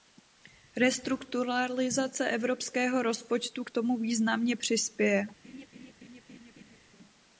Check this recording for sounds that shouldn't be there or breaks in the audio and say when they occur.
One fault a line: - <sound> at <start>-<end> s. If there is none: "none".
- laugh at 5.4-6.8 s